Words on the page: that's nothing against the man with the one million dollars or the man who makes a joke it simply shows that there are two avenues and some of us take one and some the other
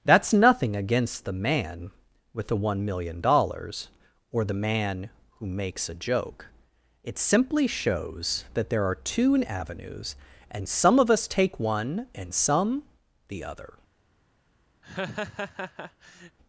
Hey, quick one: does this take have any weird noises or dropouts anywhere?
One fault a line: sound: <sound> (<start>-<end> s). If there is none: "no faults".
sound: laugh (14.8-16.4 s)